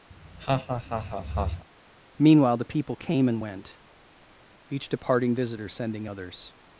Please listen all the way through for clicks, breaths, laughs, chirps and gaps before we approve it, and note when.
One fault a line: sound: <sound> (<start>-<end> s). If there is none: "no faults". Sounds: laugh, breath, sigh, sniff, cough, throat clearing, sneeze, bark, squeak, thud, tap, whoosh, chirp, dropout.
sound: laugh (0.1-1.7 s)